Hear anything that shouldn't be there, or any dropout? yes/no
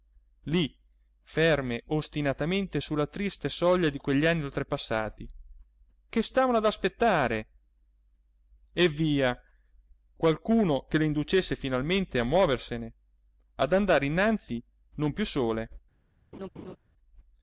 yes